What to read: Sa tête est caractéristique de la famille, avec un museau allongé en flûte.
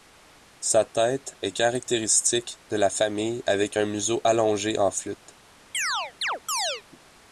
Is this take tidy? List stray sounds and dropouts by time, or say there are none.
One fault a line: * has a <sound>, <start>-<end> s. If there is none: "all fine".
* has a chirp, 5.7-6.8 s